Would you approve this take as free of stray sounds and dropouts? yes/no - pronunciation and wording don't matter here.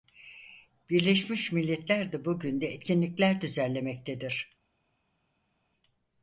yes